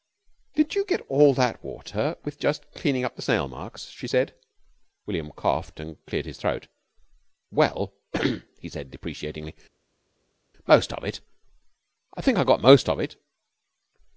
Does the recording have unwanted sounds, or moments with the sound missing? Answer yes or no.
no